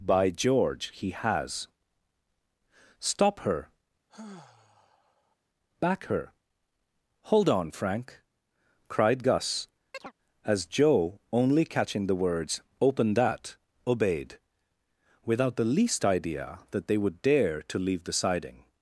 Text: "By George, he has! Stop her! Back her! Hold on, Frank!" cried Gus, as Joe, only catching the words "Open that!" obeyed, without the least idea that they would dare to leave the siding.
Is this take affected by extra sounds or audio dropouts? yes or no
yes